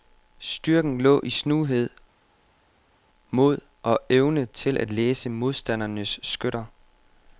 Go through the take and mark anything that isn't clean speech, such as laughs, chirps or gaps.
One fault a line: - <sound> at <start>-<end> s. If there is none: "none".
none